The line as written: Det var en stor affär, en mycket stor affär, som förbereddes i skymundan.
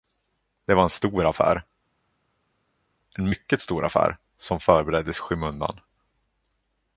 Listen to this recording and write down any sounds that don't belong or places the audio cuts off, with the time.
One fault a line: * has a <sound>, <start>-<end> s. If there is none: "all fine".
all fine